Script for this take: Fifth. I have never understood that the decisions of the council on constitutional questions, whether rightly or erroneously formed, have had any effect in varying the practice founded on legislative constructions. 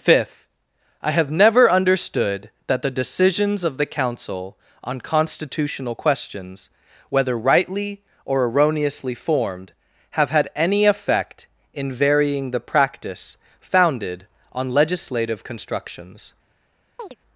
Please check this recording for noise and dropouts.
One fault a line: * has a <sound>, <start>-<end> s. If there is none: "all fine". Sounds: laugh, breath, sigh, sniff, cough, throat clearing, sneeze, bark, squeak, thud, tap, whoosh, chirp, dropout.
* has a chirp, 17.0-17.2 s